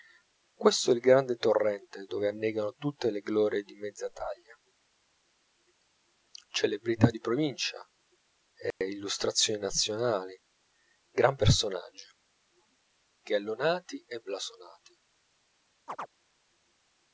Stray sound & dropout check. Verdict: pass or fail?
fail